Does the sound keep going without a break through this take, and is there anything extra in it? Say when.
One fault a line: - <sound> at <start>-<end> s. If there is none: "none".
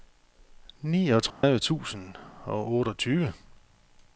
- dropout at 1.3-1.4 s